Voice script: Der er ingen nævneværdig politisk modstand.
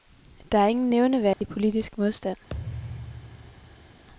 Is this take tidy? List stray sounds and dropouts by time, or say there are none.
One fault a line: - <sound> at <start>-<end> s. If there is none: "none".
- dropout at 1.3-1.4 s
- thud at 2.5-4.0 s